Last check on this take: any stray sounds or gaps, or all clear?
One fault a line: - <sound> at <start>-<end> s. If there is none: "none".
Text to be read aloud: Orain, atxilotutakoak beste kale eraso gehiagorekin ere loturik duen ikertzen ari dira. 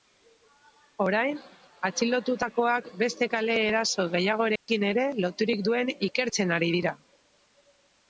- dropout at 4.6-4.7 s